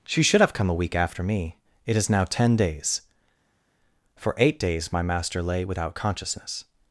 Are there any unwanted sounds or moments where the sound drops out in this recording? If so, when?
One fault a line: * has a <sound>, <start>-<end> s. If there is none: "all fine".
all fine